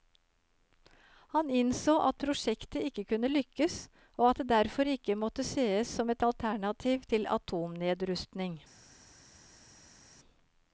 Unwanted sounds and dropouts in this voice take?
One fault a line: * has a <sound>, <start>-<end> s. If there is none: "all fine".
all fine